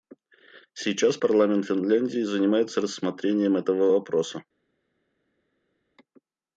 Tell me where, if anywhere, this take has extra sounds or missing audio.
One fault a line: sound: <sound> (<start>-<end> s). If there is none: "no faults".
no faults